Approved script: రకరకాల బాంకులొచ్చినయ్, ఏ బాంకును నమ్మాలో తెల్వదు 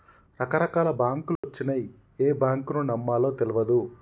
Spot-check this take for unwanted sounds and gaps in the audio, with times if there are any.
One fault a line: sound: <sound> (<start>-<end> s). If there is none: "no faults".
sound: dropout (1.4-1.4 s)